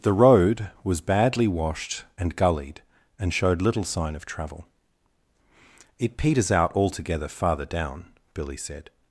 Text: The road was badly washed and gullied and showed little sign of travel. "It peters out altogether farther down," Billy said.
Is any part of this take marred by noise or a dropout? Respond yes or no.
no